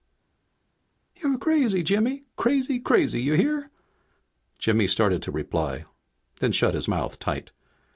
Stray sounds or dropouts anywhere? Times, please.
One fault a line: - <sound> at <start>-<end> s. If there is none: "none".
none